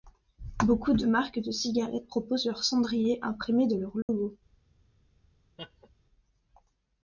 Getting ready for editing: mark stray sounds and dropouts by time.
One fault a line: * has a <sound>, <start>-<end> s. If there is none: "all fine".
* has a dropout, 4.0-4.1 s
* has a laugh, 5.6-5.9 s